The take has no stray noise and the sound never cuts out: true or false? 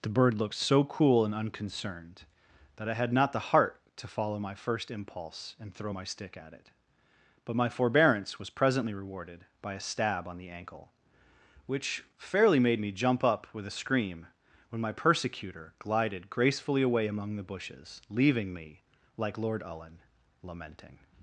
true